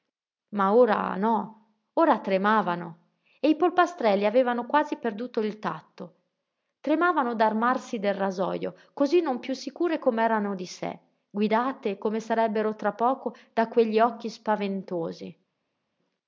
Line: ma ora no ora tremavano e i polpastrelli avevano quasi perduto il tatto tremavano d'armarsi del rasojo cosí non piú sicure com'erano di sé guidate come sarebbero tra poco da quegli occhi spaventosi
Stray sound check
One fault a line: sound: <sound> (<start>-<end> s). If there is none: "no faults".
no faults